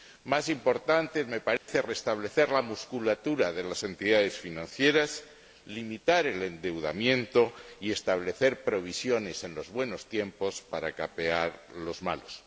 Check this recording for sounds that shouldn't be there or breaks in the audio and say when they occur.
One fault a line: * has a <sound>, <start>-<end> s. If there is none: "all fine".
* has a dropout, 1.6-1.7 s